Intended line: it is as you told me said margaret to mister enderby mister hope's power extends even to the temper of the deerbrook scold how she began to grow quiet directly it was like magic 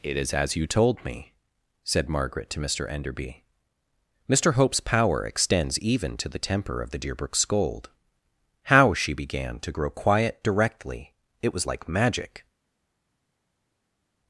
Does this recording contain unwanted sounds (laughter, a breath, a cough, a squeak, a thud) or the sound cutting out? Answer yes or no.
no